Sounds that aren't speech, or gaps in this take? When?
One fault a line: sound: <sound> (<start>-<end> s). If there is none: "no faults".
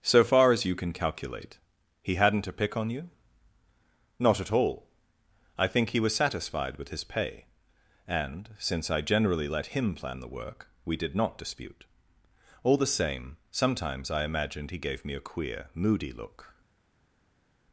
no faults